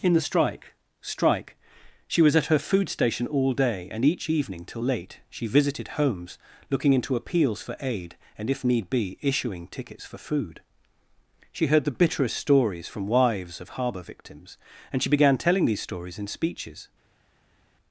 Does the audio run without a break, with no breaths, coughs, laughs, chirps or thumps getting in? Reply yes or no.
yes